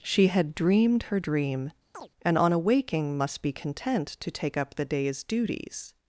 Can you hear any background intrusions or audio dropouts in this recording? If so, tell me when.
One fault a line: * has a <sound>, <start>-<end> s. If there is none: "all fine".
* has a chirp, 1.9-2.1 s